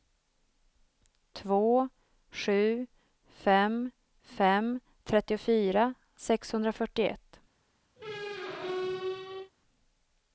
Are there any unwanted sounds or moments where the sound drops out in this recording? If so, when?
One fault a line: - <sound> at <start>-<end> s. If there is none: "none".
- squeak at 8.0-9.5 s